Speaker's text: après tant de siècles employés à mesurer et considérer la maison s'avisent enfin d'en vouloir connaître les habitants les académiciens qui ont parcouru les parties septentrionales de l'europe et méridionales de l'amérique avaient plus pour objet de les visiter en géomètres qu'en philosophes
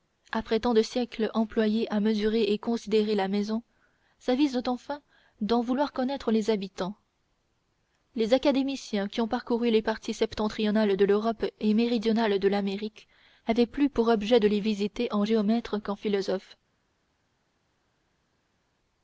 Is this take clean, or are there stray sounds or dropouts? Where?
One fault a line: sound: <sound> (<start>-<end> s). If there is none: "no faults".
no faults